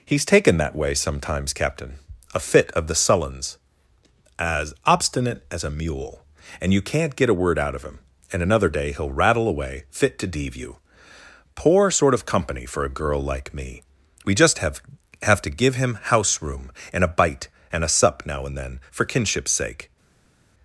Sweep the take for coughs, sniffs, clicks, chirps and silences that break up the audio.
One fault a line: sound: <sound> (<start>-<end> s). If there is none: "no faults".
no faults